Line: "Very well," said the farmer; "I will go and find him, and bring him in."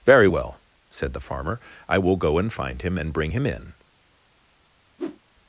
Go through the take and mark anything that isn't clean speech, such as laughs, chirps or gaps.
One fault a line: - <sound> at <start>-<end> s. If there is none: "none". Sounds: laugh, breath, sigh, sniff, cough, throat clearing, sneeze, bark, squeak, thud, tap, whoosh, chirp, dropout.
- whoosh at 5.0-5.2 s